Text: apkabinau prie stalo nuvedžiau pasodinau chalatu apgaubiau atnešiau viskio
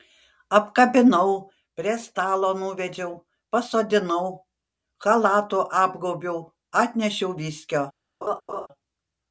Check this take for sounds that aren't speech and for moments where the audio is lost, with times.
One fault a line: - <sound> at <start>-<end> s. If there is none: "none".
- laugh at 8.2-8.7 s